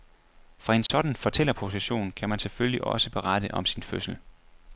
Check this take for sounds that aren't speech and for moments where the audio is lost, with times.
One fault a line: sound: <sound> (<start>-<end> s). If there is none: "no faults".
sound: dropout (0.9-0.9 s)